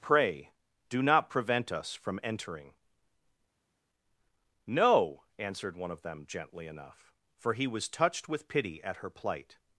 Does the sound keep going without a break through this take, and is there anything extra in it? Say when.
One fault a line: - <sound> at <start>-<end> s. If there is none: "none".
none